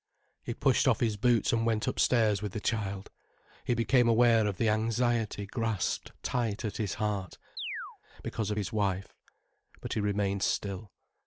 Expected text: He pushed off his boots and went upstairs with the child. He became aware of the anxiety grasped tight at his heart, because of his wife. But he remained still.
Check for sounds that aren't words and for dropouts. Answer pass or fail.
fail